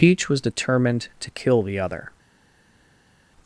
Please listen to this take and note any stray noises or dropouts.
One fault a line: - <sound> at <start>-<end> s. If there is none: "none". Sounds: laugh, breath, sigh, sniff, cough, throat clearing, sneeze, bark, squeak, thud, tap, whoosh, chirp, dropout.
none